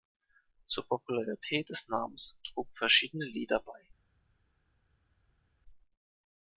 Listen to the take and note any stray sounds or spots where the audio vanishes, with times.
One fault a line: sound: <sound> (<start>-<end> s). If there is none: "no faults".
no faults